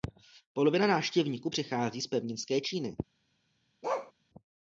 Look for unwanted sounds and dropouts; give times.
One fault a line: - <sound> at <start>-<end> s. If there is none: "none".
- bark at 3.8-4.1 s